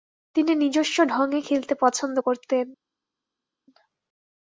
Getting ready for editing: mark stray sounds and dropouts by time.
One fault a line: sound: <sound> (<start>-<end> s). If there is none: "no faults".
no faults